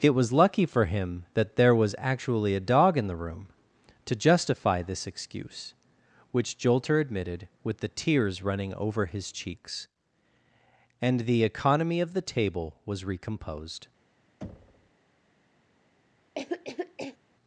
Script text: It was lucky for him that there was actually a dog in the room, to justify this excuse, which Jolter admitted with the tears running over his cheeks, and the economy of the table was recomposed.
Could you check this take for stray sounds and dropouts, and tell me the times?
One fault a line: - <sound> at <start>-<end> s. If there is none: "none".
- thud at 14.4-14.9 s
- cough at 16.3-17.2 s